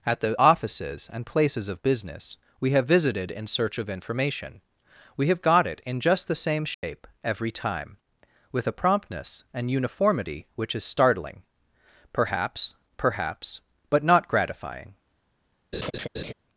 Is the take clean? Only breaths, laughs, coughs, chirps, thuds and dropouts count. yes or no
no